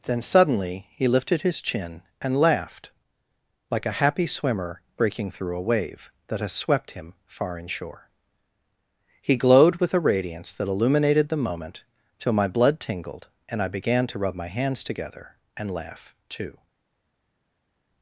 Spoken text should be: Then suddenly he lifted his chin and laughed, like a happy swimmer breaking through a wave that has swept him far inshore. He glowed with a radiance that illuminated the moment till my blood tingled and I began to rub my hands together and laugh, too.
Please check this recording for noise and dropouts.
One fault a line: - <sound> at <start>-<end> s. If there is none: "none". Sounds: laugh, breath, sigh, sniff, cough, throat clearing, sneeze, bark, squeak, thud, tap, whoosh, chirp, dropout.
none